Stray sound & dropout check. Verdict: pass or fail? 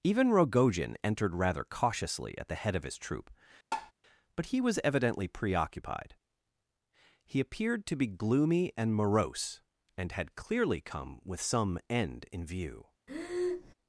fail